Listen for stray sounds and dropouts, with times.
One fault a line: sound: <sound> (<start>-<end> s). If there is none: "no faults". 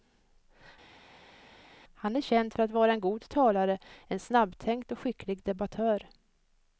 no faults